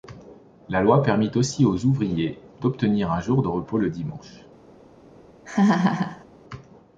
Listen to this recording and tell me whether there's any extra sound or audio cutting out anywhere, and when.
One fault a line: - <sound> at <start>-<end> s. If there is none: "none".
- laugh at 5.5-6.3 s